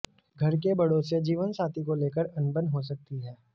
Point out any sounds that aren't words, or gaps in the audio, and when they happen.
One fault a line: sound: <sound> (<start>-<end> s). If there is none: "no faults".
no faults